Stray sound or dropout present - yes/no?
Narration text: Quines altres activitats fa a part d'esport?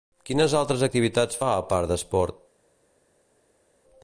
no